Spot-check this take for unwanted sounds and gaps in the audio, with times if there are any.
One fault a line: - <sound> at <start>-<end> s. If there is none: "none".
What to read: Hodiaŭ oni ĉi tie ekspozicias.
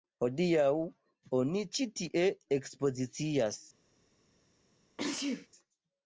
- sneeze at 5.0-5.5 s